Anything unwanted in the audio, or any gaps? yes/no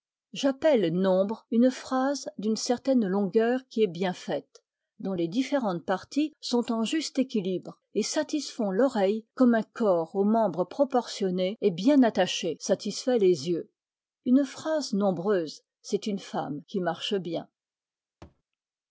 yes